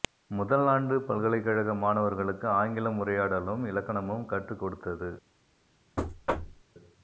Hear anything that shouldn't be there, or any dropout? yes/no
yes